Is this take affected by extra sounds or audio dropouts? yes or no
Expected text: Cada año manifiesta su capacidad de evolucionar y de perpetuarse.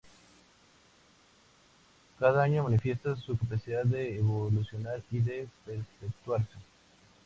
no